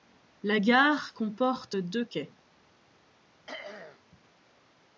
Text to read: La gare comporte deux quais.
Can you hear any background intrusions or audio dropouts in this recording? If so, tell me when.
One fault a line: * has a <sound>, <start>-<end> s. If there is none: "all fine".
* has a throat clearing, 3.5-4.0 s